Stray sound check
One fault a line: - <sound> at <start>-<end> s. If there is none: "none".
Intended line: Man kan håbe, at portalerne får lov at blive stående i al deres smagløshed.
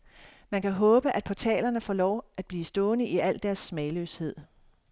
none